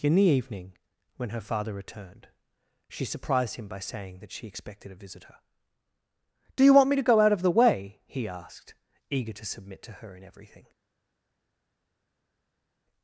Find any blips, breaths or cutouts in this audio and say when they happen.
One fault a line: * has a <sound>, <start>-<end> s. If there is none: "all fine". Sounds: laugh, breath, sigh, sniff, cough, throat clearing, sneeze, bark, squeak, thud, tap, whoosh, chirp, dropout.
all fine